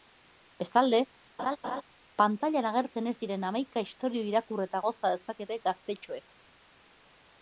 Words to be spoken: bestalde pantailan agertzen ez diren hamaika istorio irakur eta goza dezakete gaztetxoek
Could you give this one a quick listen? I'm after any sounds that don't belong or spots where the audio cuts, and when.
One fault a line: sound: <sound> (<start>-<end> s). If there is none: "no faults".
sound: laugh (1.4-1.8 s)